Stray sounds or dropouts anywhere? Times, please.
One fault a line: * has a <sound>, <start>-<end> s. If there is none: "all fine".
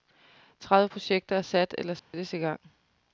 * has a dropout, 2.0-2.1 s